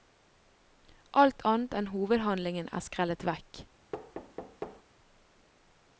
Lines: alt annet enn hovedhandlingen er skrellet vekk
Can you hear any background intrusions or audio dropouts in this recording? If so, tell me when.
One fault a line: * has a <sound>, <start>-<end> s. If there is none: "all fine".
* has a thud, 3.9-4.8 s